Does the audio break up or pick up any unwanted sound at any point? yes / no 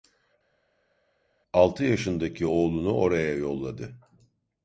no